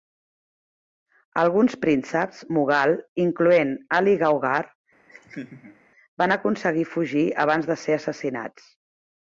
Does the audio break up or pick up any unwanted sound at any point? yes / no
yes